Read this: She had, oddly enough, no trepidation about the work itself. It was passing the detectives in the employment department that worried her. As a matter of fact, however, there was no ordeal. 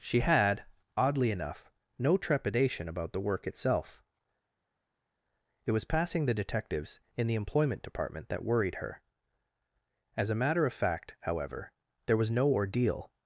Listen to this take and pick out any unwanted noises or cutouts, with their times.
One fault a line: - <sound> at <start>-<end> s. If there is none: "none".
none